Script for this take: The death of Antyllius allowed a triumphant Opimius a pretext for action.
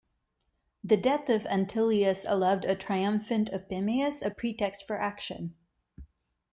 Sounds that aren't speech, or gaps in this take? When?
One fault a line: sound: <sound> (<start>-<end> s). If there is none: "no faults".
no faults